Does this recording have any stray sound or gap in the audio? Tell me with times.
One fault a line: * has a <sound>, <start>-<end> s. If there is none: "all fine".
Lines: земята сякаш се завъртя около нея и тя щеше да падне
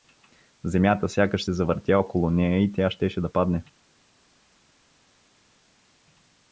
all fine